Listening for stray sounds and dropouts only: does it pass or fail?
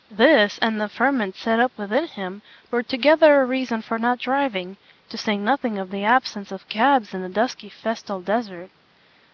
pass